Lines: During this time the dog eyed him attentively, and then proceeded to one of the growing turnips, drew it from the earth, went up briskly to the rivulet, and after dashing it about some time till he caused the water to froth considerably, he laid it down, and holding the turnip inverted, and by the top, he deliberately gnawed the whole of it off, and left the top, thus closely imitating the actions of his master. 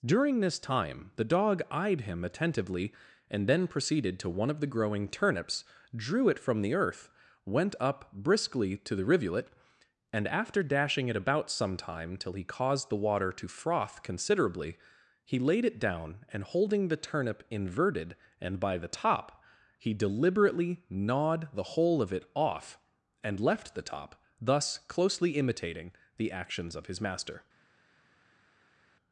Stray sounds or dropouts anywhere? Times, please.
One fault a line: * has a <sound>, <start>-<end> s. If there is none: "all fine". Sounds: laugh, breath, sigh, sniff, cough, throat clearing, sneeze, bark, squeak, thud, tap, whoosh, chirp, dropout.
all fine